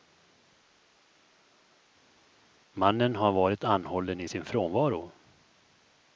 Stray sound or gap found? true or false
false